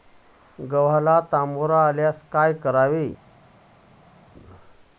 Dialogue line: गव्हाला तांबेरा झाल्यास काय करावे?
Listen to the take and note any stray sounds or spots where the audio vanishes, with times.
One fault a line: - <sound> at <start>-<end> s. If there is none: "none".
none